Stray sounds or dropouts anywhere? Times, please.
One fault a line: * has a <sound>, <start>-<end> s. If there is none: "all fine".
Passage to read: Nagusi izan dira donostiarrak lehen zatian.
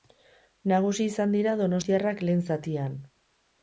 all fine